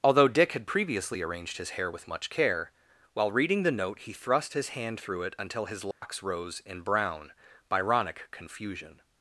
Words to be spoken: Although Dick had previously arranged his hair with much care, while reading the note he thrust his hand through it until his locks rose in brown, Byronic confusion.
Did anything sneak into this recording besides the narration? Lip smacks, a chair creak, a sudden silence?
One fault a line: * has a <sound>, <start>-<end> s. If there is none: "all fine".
* has a dropout, 5.9-6.0 s